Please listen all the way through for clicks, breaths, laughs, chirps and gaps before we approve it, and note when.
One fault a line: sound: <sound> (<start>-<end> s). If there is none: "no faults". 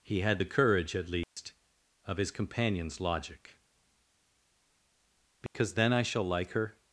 sound: dropout (1.2-1.4 s)
sound: dropout (5.5-5.5 s)